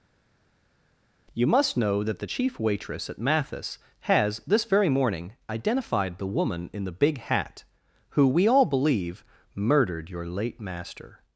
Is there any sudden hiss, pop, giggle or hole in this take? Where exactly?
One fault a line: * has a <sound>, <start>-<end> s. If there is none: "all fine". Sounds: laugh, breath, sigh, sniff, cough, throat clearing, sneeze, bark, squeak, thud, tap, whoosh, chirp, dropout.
all fine